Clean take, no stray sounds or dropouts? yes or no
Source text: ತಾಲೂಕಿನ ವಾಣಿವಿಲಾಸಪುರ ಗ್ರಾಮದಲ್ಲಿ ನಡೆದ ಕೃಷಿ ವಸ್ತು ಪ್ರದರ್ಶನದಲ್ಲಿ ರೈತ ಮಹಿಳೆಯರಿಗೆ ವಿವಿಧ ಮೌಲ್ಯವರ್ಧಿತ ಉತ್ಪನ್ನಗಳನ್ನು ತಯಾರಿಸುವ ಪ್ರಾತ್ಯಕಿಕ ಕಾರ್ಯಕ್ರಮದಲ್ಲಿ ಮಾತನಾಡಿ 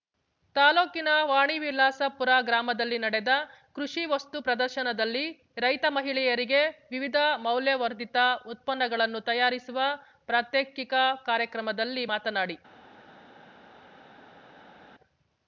yes